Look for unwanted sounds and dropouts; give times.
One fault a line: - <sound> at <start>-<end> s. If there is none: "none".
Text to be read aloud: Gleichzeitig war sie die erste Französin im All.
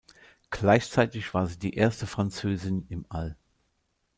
none